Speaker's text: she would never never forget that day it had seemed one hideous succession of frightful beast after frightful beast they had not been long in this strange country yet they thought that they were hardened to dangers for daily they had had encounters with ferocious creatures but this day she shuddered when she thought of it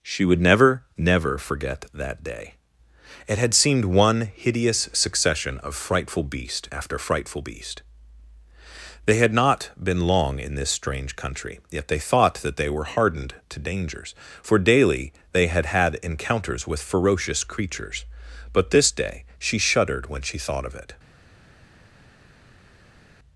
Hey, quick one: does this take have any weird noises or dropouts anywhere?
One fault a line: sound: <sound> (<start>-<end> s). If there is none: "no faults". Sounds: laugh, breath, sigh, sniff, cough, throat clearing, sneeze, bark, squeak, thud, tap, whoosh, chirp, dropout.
no faults